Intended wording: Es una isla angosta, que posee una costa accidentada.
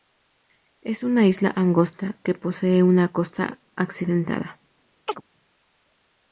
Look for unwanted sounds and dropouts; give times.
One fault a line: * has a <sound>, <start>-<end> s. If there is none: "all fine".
* has a chirp, 5.1-5.2 s